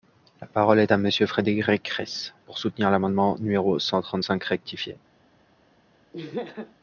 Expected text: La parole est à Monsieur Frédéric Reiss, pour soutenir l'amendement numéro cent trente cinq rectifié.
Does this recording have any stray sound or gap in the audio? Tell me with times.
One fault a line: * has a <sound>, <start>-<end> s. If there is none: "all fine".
* has a laugh, 6.1-6.7 s